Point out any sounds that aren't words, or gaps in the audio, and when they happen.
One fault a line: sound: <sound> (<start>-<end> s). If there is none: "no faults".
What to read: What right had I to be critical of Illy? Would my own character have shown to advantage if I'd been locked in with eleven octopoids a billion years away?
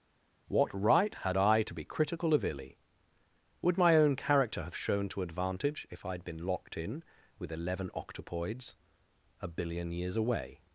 no faults